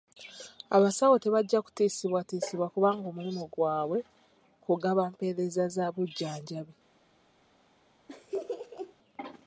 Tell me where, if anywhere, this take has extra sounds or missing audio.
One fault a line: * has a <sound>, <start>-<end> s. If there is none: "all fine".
* has a laugh, 8.1-8.9 s